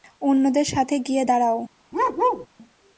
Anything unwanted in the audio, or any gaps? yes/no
yes